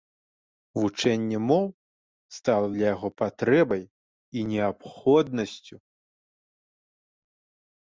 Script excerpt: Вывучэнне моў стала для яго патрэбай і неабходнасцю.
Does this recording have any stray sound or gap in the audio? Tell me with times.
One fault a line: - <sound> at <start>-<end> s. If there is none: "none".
none